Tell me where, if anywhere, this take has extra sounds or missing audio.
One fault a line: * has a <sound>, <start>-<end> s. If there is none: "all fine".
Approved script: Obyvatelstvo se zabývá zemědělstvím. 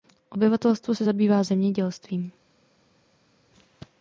all fine